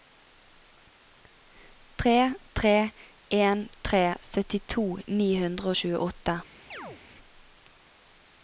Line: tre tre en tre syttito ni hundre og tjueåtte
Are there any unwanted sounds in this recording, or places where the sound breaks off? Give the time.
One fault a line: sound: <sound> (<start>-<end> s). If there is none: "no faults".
sound: chirp (6.7-7.0 s)